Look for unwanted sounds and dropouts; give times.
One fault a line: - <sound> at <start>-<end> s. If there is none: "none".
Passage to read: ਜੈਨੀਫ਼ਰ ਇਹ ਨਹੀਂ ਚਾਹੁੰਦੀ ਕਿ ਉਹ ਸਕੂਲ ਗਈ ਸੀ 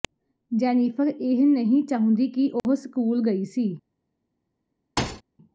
- dropout at 2.6-2.6 s
- thud at 5.0-5.2 s